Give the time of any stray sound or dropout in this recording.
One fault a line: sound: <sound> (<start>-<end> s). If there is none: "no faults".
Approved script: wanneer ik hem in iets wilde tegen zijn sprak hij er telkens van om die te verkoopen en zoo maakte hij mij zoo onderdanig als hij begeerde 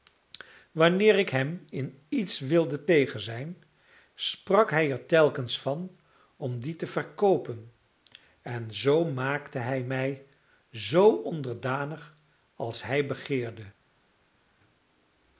no faults